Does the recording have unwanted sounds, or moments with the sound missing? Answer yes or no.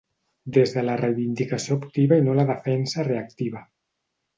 no